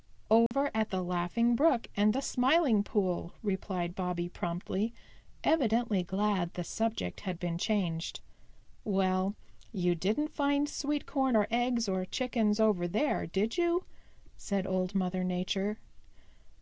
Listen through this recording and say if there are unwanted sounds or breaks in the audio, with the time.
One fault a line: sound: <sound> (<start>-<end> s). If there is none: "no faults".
sound: dropout (0.5-0.5 s)